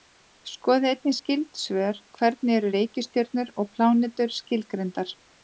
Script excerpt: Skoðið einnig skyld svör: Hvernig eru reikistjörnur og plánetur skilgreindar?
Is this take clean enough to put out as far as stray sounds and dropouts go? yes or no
yes